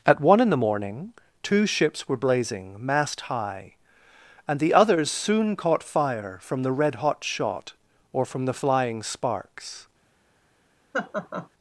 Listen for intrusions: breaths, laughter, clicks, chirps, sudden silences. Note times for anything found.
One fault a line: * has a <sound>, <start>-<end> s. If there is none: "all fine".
* has a laugh, 10.9-11.5 s